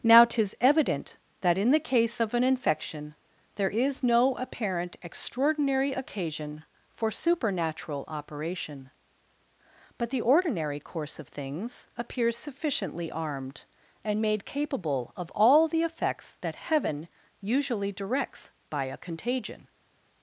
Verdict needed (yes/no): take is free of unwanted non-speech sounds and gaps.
yes